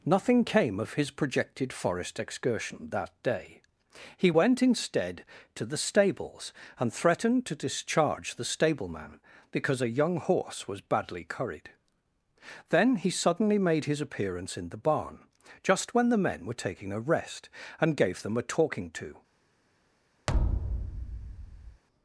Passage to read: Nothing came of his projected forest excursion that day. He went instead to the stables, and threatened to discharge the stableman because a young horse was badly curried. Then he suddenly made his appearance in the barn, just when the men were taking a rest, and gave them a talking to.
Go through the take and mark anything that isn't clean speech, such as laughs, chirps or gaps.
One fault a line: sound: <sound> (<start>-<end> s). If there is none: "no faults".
sound: thud (20.3-21.8 s)